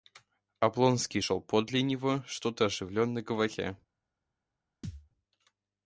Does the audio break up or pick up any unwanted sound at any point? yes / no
yes